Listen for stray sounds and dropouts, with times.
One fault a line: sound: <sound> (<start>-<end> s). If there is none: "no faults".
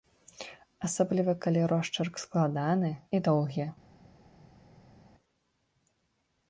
no faults